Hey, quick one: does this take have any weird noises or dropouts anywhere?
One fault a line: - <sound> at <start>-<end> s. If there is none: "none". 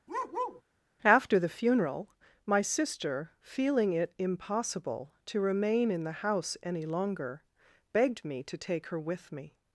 - bark at 0.1-0.6 s